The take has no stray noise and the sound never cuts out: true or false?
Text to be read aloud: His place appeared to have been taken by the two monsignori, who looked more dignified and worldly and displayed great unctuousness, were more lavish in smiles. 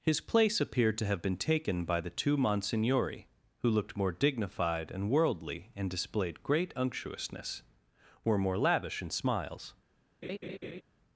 false